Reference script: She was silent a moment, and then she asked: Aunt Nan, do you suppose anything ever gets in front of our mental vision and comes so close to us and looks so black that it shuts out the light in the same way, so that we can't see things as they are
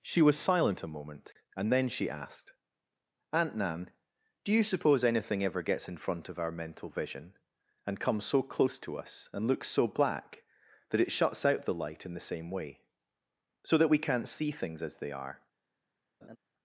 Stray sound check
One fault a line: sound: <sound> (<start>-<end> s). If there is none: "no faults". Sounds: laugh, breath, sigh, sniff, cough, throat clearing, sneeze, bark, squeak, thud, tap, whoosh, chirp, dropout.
sound: laugh (16.2-16.4 s)